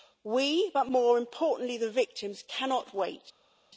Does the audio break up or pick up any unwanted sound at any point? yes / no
no